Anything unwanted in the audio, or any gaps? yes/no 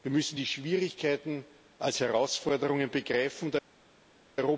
no